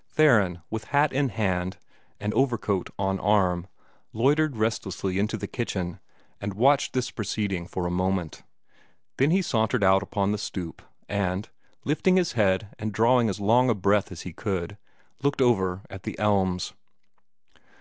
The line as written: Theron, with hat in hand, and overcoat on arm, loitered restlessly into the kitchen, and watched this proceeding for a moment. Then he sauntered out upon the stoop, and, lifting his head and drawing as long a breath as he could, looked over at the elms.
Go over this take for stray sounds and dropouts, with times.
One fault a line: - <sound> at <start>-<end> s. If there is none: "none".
none